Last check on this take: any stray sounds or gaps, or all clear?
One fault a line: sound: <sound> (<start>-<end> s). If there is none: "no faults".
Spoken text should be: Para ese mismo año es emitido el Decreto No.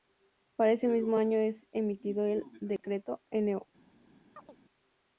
sound: dropout (2.8-2.8 s)
sound: chirp (4.4-4.6 s)